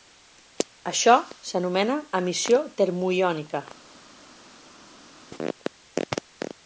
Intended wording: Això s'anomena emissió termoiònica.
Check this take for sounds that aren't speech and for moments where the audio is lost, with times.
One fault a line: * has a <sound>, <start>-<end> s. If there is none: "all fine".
all fine